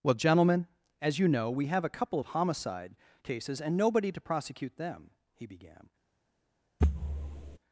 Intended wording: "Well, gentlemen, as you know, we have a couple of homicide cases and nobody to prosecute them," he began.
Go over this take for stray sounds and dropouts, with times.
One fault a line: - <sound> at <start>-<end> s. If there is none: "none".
- thud at 6.8-7.6 s